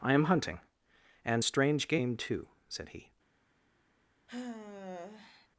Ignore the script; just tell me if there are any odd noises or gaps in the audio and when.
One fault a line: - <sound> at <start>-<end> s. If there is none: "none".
- sigh at 4.3-5.5 s